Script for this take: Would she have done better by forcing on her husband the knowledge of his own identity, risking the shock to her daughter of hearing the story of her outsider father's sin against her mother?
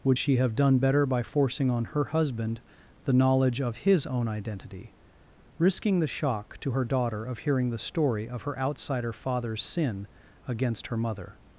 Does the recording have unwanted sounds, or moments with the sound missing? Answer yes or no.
no